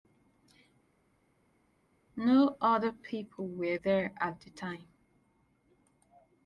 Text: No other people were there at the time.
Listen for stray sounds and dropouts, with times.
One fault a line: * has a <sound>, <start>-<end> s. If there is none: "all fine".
all fine